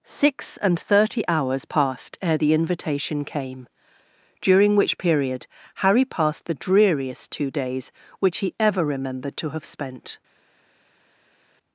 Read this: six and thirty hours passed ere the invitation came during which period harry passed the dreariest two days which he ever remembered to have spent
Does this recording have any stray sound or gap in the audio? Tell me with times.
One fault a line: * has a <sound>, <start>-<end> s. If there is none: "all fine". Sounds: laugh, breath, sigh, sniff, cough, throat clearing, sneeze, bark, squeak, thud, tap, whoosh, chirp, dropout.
all fine